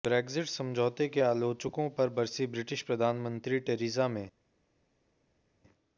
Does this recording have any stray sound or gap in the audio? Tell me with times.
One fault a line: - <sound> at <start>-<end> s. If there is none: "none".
none